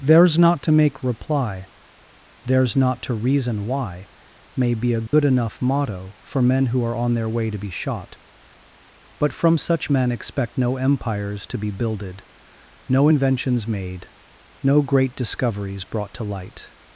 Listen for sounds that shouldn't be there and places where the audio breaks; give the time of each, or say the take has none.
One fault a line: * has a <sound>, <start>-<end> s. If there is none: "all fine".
* has a dropout, 5.1-5.1 s